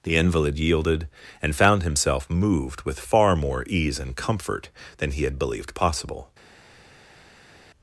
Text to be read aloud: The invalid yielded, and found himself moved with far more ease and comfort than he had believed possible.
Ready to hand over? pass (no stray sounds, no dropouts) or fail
pass